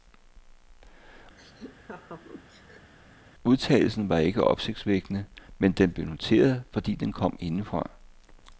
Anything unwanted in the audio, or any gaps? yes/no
yes